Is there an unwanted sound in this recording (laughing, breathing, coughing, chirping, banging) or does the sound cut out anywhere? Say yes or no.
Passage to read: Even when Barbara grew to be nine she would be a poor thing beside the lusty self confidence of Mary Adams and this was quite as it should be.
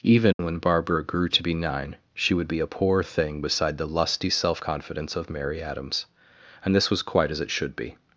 yes